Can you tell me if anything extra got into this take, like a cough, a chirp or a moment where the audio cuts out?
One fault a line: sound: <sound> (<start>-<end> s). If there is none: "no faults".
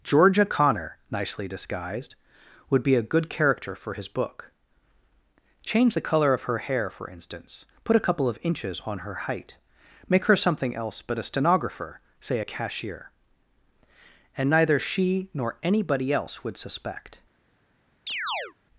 sound: chirp (18.1-18.5 s)